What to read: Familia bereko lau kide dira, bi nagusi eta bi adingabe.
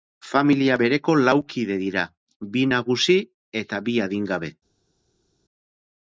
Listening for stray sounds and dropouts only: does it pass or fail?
pass